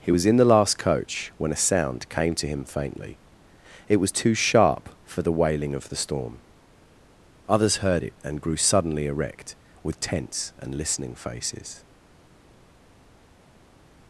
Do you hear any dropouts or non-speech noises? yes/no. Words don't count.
no